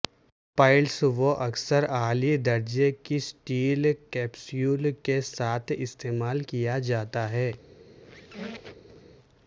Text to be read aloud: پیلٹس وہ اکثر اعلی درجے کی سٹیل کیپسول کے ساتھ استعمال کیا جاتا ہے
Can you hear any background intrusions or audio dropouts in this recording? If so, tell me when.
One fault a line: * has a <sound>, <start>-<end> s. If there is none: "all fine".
* has a squeak, 7.9-9.2 s